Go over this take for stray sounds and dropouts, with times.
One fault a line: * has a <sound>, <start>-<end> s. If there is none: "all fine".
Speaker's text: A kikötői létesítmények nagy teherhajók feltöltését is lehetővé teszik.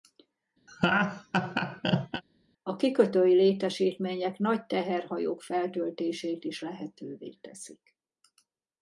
* has a laugh, 0.7-2.2 s